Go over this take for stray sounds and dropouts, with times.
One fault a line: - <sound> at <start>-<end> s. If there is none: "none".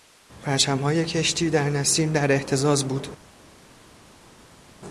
none